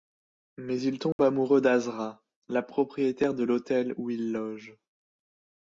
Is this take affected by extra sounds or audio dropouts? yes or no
yes